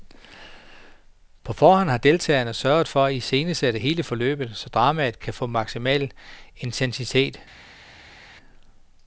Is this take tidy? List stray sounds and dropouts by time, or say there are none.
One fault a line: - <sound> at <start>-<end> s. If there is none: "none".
none